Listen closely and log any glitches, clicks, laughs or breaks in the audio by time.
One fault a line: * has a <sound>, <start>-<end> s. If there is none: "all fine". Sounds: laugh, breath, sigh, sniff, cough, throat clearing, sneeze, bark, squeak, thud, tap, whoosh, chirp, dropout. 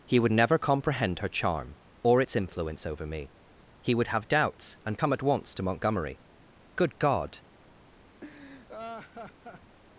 * has a laugh, 8.2-9.8 s